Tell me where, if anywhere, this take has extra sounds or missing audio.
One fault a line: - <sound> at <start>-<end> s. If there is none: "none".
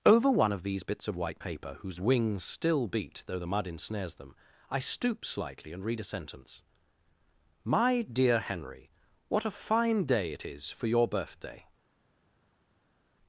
none